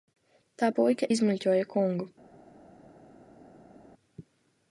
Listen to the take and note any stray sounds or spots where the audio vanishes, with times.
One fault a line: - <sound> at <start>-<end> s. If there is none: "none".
none